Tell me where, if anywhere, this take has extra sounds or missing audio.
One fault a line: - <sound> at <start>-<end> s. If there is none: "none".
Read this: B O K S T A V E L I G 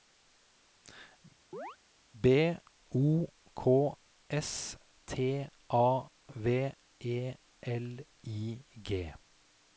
- chirp at 1.5-1.8 s